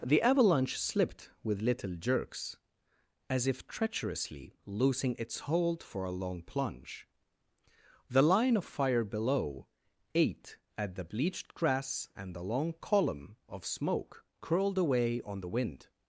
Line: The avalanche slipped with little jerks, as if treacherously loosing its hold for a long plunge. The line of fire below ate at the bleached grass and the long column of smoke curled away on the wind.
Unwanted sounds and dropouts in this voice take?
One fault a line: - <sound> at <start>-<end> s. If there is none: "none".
none